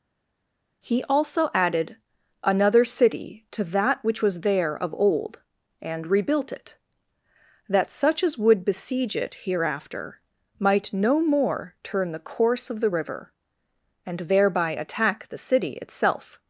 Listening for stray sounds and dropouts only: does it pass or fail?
pass